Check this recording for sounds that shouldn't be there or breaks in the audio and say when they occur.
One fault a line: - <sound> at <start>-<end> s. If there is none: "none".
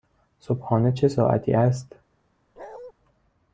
- bark at 2.6-2.9 s